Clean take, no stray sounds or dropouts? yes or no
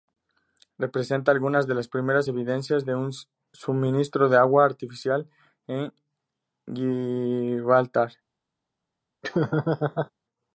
no